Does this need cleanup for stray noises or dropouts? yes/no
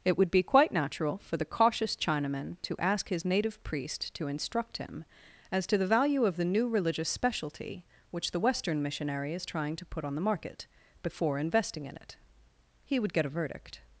no